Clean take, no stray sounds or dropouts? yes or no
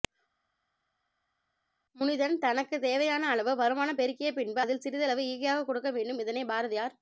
yes